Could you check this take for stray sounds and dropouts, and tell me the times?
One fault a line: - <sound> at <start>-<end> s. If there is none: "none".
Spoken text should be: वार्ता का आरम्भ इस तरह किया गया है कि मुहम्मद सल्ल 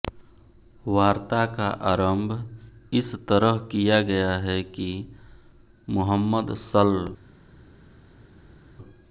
none